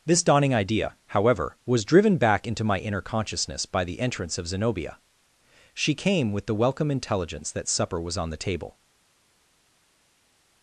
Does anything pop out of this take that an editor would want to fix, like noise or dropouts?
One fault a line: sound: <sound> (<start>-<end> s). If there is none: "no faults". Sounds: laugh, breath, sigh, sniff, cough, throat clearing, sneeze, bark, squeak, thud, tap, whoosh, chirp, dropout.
no faults